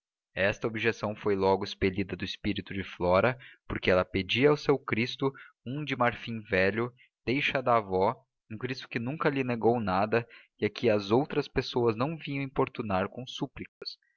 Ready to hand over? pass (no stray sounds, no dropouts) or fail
fail